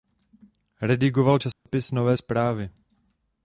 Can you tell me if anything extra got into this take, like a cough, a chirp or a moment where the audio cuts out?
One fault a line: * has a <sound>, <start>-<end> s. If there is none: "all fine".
* has a dropout, 1.5-1.7 s